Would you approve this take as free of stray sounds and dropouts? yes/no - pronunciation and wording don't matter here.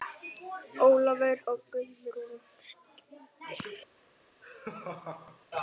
no